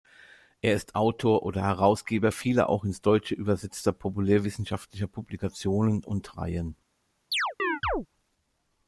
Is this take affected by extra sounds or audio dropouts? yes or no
yes